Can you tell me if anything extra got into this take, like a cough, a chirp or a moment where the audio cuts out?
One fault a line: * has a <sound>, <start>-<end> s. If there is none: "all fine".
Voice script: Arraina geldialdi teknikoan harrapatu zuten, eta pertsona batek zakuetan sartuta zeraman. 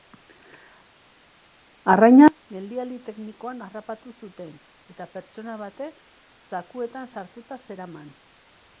all fine